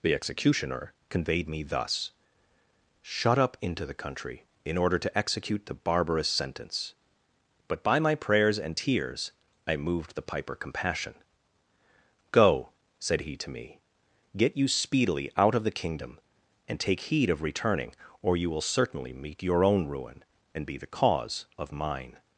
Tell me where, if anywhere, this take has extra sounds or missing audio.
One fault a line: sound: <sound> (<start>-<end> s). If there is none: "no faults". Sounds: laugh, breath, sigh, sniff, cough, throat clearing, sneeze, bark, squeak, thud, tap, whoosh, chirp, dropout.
no faults